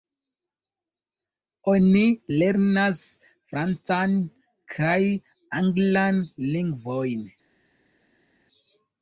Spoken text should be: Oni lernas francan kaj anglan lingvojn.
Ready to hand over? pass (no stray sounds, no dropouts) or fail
pass